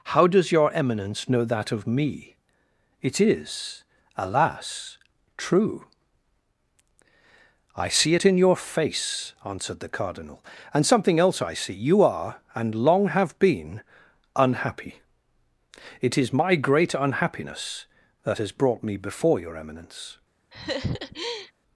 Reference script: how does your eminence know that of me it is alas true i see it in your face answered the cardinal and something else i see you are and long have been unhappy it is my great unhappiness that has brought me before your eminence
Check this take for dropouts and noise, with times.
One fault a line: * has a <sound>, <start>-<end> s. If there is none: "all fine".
* has a laugh, 20.5-21.5 s